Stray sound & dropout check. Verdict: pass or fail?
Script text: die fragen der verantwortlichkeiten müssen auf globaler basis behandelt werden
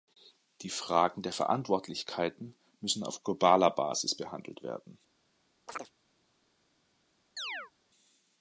fail